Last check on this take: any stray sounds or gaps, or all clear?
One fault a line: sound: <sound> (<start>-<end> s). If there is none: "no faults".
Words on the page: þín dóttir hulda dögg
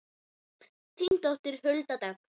sound: dropout (1.1-1.1 s)